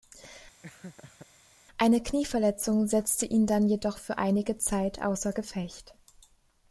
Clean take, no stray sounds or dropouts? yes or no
no